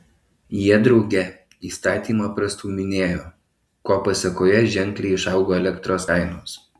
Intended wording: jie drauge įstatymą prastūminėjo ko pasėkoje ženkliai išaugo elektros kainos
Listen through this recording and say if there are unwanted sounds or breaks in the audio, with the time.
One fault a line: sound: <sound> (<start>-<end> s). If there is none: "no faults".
no faults